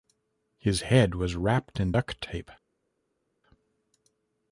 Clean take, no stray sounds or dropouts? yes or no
yes